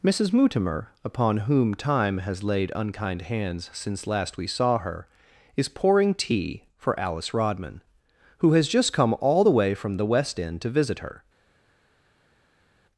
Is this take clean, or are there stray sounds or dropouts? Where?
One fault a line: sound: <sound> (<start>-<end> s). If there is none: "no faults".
no faults